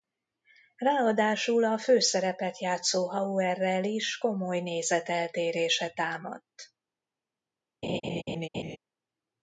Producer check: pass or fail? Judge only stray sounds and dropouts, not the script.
fail